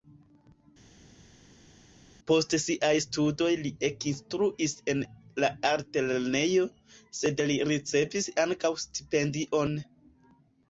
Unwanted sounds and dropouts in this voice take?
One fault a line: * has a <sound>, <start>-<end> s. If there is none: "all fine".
all fine